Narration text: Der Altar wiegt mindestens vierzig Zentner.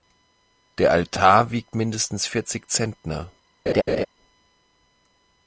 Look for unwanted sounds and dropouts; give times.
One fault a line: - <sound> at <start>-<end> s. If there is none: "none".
- laugh at 3.7-4.1 s